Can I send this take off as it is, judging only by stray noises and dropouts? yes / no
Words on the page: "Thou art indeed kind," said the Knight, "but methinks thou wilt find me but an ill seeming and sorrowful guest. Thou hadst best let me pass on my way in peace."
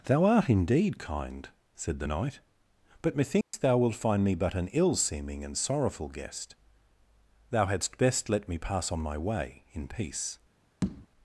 no